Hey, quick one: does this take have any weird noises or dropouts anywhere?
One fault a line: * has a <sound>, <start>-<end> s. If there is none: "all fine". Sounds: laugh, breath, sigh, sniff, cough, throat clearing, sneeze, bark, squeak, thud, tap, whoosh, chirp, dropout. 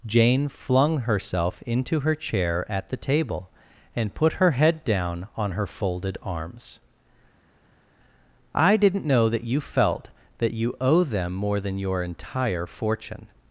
all fine